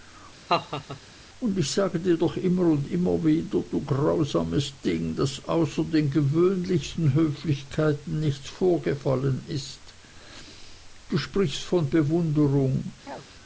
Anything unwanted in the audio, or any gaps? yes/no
yes